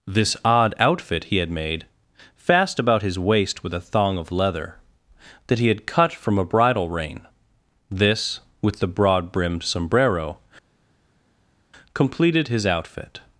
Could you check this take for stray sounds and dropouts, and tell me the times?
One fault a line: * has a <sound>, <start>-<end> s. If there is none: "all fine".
all fine